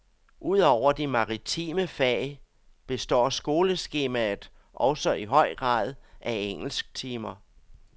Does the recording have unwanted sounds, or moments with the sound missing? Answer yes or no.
no